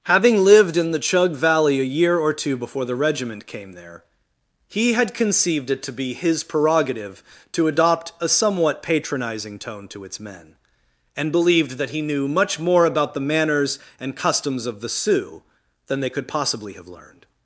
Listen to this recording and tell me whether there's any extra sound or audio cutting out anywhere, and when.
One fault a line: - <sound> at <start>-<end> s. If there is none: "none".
none